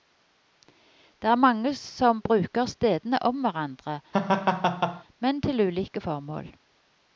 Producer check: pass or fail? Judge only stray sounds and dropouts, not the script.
fail